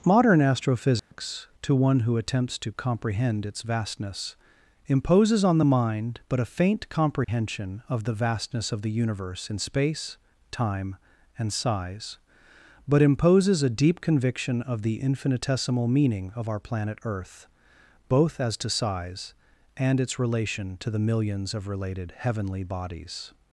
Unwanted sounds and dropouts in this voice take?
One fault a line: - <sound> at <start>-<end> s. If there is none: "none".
- dropout at 1.0-1.1 s
- dropout at 7.2-7.3 s